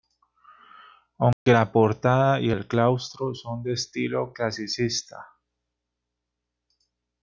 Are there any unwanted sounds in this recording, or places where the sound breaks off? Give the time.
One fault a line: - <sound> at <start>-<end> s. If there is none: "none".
- dropout at 1.3-1.5 s